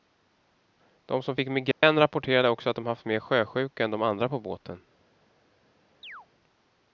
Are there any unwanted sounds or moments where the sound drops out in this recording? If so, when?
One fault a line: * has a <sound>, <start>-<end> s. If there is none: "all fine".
* has a dropout, 1.7-1.8 s
* has a chirp, 6.0-6.3 s